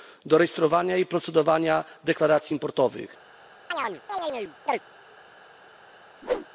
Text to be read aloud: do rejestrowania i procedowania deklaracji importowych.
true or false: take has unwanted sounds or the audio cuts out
true